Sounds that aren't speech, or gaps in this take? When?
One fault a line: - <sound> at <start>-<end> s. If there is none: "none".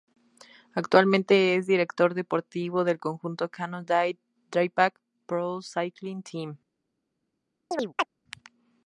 - chirp at 7.7-8.1 s